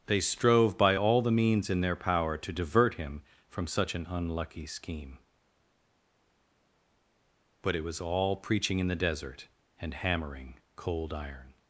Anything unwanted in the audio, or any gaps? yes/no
no